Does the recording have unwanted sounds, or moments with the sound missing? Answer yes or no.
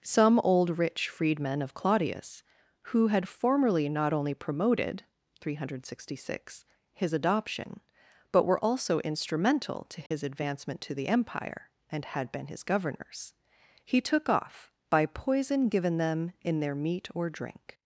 yes